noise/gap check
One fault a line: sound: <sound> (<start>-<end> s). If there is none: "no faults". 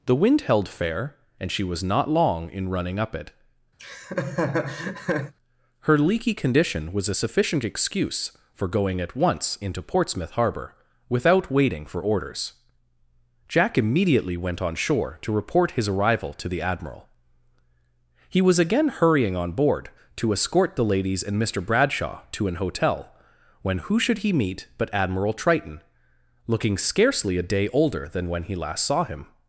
sound: laugh (3.8-5.3 s)